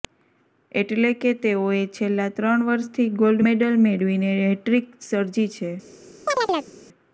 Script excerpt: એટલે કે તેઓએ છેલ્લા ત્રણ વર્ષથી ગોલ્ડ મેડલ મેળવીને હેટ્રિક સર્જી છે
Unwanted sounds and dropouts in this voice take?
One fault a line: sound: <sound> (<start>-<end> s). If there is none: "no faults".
sound: chirp (6.3-6.7 s)